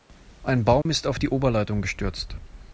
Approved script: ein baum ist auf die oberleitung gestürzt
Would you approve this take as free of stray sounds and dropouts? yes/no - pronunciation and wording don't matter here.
no